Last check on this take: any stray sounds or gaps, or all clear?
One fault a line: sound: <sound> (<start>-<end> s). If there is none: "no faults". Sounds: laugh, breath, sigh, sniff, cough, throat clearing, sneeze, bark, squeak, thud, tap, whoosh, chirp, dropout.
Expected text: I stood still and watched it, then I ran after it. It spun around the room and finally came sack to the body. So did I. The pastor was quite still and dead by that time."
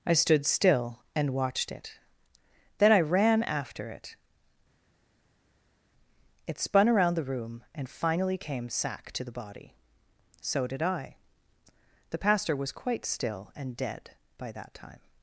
no faults